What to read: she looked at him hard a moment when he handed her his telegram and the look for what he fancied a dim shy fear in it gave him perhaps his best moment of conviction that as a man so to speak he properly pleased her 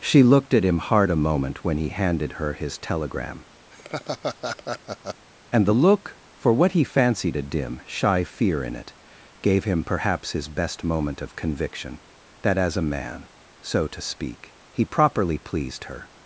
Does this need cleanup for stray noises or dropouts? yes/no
yes